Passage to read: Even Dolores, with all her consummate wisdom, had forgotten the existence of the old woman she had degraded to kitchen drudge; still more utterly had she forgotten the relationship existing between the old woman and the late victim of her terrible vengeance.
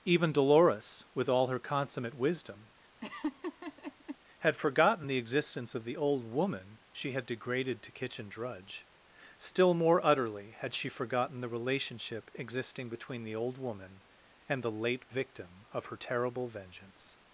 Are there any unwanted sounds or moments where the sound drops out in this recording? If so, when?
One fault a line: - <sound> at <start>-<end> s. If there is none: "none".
- laugh at 3.0-4.2 s